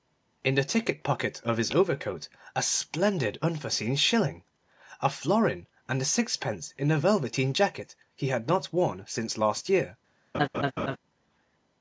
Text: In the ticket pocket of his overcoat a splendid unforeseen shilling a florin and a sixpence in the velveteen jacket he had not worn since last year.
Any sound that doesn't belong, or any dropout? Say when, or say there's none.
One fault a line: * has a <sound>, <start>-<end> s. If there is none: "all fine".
* has a laugh, 10.3-11.0 s